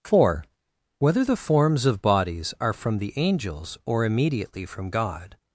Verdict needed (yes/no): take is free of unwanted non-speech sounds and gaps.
yes